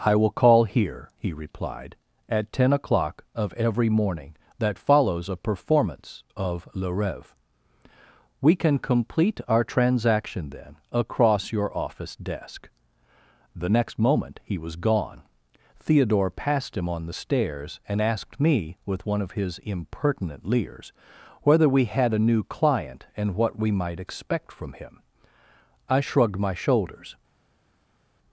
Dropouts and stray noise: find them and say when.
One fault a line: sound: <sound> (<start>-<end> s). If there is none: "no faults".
no faults